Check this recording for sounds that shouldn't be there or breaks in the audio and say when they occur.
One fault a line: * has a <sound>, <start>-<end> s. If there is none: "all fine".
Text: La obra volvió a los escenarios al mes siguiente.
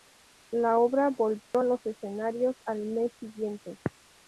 * has a dropout, 1.4-1.5 s